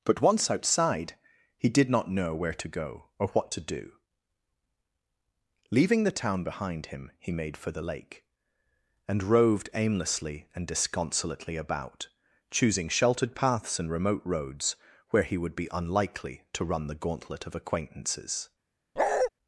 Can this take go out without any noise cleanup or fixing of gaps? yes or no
no